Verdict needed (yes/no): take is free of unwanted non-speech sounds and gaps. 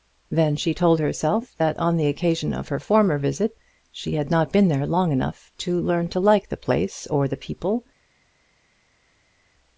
yes